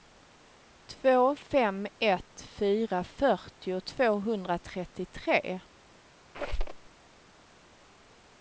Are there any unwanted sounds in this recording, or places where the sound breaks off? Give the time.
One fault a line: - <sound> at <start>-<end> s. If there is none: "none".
- squeak at 6.3-6.9 s